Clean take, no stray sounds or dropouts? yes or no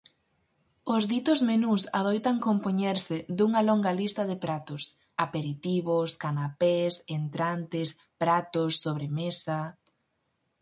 yes